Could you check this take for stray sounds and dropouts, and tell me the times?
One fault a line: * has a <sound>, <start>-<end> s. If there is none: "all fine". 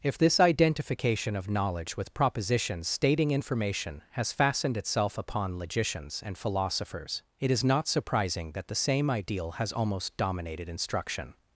all fine